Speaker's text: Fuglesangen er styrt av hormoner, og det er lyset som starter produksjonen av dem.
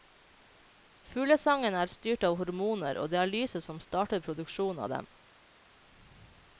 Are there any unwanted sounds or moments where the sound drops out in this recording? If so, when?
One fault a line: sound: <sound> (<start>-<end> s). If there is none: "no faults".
no faults